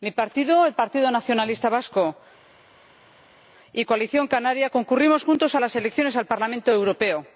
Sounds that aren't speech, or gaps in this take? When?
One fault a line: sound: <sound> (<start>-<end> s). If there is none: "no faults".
no faults